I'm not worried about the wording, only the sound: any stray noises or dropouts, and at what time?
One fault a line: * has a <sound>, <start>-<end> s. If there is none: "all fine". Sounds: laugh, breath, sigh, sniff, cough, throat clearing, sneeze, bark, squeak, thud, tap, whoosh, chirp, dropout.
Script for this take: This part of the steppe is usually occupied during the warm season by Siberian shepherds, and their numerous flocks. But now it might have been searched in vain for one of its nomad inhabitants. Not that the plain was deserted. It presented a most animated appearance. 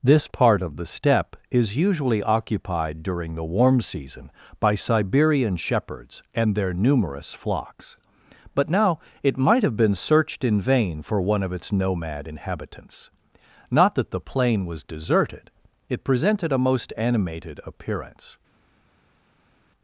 all fine